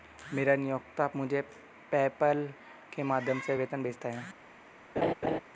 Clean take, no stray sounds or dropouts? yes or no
no